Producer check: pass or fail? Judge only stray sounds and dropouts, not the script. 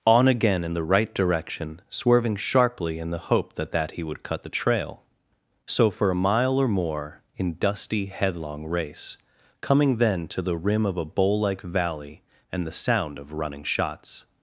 pass